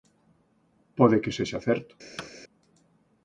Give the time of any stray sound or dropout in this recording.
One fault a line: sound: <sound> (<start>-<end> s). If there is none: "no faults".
sound: thud (2.2-2.3 s)